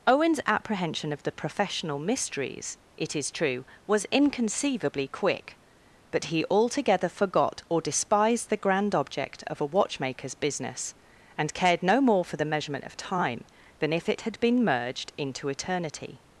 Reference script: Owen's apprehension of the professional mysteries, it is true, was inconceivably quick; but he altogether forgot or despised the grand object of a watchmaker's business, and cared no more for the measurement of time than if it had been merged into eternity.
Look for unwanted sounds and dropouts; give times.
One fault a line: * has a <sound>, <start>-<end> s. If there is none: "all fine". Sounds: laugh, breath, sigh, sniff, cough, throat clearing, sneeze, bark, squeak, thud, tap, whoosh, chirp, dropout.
all fine